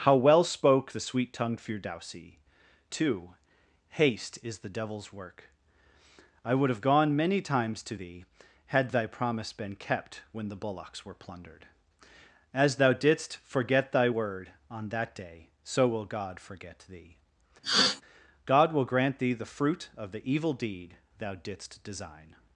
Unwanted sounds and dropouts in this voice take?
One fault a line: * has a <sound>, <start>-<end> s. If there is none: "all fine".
* has a sneeze, 17.6-18.0 s